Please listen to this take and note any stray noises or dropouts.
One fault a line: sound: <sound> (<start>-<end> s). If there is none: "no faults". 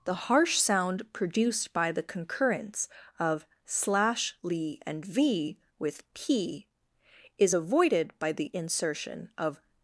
no faults